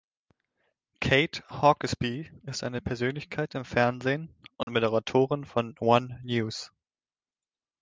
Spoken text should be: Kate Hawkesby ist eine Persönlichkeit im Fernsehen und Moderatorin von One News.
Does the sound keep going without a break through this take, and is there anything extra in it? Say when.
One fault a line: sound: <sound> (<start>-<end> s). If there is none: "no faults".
sound: dropout (4.6-4.7 s)